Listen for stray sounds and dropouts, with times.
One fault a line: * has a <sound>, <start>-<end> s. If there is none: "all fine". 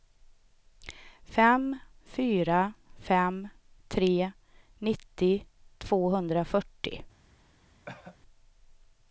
* has a cough, 7.9-8.2 s